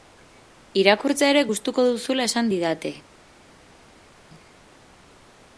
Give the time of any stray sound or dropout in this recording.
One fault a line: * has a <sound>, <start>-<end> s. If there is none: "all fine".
all fine